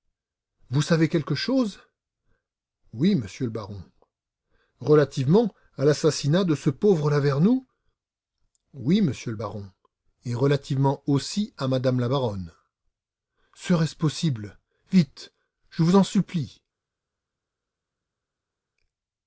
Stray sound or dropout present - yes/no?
no